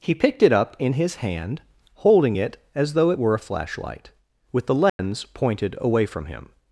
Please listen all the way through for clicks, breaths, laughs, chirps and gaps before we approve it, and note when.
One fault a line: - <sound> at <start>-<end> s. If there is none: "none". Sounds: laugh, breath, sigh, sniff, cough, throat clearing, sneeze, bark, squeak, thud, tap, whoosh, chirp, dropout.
- dropout at 4.9-5.0 s